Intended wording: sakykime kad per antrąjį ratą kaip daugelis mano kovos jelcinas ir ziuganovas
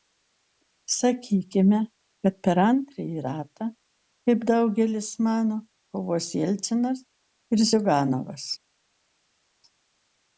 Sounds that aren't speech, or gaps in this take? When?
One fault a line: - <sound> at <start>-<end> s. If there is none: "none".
none